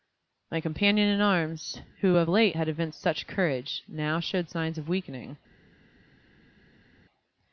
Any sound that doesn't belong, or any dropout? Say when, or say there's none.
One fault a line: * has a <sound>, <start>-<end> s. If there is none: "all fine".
all fine